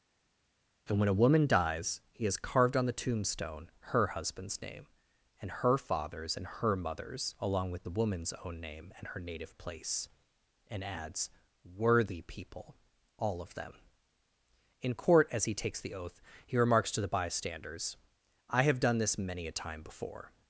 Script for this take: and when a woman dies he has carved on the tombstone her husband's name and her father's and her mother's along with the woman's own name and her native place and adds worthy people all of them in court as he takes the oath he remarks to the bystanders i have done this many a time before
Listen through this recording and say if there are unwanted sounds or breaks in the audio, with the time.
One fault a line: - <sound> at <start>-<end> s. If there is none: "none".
none